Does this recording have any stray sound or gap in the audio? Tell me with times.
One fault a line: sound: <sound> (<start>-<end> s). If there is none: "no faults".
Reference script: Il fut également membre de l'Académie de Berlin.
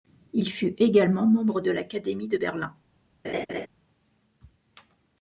sound: laugh (3.2-3.7 s)